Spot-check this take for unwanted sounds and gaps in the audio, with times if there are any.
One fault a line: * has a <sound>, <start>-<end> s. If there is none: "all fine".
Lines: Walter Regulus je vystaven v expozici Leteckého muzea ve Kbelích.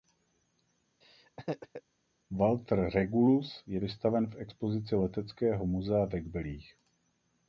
* has a laugh, 1.0-1.8 s